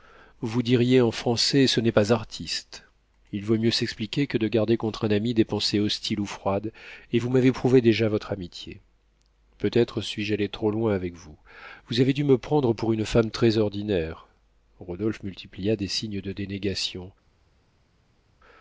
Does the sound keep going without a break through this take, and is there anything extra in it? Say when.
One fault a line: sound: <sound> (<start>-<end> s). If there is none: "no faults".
no faults